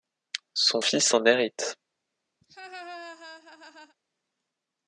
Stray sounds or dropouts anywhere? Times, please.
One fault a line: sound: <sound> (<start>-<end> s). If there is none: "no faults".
sound: laugh (2.4-4.0 s)